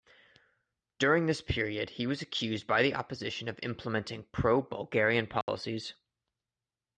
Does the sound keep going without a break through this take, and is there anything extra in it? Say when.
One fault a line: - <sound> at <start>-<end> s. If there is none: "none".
- dropout at 5.4-5.5 s